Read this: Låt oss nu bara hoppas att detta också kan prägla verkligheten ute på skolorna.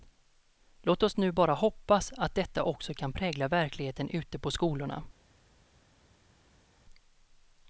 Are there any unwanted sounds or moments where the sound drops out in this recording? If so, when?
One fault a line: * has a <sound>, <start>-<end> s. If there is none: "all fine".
all fine